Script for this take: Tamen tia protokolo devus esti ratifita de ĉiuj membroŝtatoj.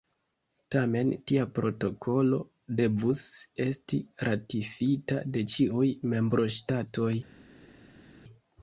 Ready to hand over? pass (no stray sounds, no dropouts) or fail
pass